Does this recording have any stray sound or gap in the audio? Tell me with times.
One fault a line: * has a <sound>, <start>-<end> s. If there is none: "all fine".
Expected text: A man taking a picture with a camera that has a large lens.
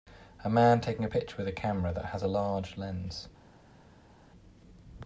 all fine